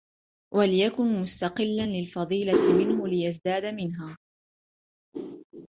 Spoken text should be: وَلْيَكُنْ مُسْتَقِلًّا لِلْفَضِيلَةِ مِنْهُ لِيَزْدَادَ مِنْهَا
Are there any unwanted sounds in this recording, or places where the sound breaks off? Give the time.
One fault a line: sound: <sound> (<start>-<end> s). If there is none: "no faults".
no faults